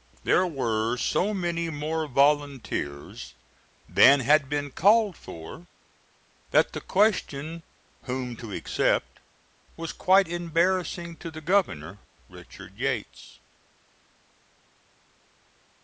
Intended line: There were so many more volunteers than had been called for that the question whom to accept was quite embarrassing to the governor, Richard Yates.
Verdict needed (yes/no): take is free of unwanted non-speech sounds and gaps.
yes